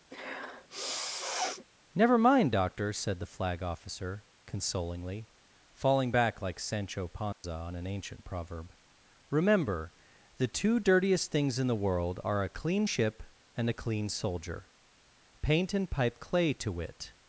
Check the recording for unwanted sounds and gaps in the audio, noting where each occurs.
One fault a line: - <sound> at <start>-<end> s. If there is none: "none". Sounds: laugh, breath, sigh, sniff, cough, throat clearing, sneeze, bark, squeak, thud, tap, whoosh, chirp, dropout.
- sniff at 0.1-1.7 s
- dropout at 7.3-7.4 s